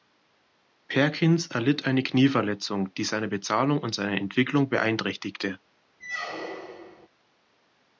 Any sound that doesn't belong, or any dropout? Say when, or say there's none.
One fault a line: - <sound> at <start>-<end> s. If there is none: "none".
- squeak at 6.0-7.1 s